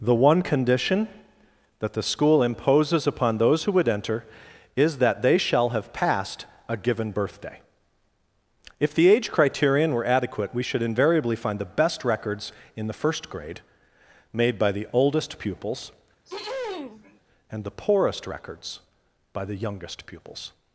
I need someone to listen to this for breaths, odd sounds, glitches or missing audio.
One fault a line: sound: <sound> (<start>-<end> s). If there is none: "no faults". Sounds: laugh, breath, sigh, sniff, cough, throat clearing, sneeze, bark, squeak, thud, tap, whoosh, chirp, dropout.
sound: throat clearing (16.3-17.2 s)